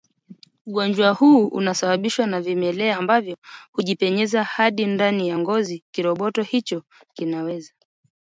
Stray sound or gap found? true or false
false